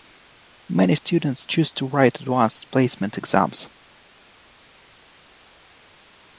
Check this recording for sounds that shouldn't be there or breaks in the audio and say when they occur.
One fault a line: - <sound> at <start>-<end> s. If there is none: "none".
none